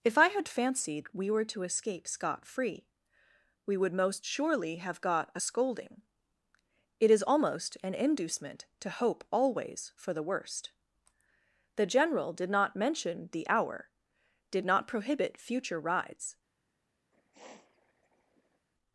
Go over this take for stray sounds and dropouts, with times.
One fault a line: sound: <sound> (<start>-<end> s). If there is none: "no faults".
sound: sniff (17.1-18.7 s)